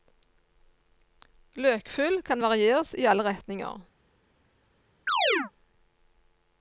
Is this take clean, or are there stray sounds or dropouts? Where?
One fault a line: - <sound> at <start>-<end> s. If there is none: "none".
- chirp at 5.1-5.5 s